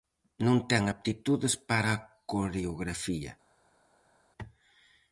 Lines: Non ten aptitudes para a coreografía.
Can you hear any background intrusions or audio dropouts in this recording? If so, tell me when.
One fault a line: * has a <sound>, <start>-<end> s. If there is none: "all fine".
all fine